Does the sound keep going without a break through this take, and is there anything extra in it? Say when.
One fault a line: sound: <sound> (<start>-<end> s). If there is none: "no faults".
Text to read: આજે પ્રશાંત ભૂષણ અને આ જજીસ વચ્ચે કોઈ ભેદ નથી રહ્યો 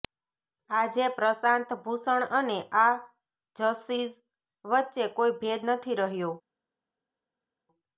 no faults